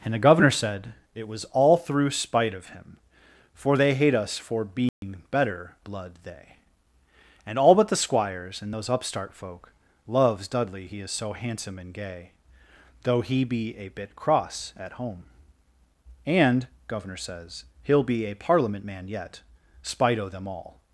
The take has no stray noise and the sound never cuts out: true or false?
false